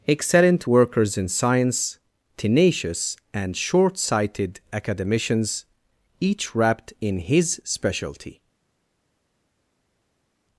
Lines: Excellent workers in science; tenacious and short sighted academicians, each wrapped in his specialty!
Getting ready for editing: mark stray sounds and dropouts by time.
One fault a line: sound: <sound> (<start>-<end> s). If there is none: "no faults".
no faults